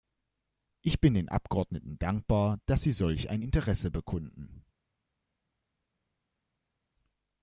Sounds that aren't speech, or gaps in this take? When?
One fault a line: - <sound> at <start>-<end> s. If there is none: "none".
none